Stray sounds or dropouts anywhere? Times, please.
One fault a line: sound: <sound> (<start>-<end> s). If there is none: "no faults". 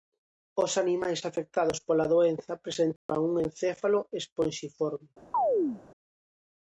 sound: dropout (3.0-3.1 s)
sound: chirp (5.3-5.8 s)